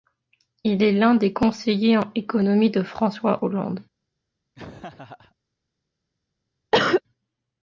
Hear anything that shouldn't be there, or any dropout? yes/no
yes